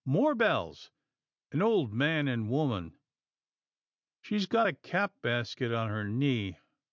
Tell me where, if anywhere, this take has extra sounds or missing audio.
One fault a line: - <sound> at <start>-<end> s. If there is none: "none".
none